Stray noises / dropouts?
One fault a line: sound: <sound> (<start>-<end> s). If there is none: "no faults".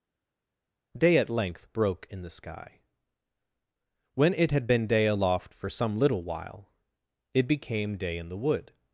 no faults